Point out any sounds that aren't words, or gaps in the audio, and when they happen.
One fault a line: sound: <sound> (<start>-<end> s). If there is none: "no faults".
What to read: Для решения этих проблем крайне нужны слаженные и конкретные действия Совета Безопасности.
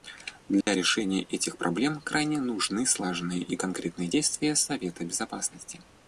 sound: dropout (0.6-0.7 s)